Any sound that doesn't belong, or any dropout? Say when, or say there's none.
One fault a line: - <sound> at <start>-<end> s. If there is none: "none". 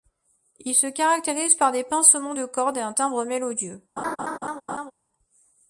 - laugh at 4.0-4.9 s